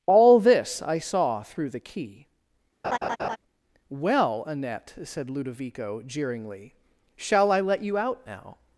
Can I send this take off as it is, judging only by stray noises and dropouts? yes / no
no